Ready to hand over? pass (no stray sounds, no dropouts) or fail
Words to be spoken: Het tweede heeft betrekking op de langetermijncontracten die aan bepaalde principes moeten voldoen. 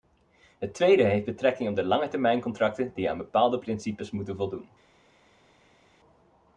pass